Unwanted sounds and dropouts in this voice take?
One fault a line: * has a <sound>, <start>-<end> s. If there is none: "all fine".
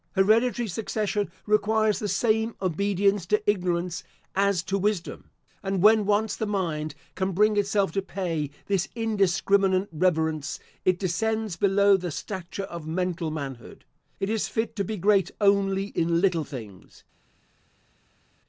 all fine